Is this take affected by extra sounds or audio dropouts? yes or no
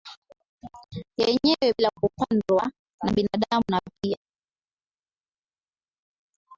no